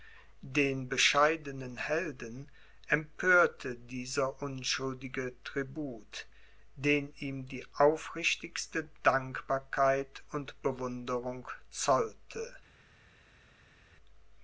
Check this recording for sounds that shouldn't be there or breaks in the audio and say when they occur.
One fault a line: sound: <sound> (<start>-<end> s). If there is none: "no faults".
no faults